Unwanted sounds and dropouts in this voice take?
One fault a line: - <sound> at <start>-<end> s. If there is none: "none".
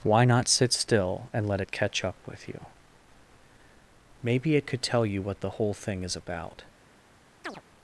- chirp at 7.4-7.6 s